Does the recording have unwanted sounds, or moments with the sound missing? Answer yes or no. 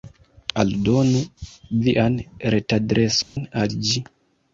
yes